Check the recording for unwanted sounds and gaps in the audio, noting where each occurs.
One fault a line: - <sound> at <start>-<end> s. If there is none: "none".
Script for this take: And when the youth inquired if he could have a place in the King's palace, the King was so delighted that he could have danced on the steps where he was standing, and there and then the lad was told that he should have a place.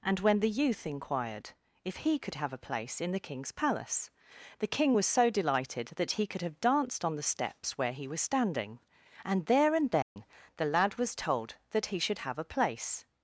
- dropout at 10.0-10.2 s